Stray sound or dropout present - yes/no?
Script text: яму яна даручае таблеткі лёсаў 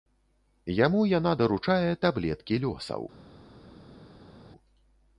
no